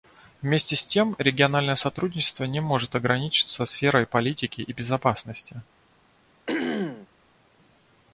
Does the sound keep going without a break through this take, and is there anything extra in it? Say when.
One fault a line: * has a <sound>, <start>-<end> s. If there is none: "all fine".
* has a throat clearing, 6.5-7.1 s